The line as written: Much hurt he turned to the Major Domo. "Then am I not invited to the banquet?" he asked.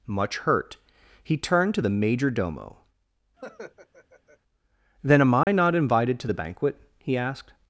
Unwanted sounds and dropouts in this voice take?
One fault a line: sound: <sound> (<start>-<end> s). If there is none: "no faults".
sound: laugh (3.4-4.4 s)
sound: dropout (5.4-5.5 s)